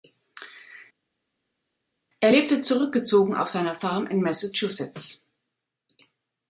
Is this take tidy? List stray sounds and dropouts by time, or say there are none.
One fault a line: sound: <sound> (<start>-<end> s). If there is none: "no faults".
no faults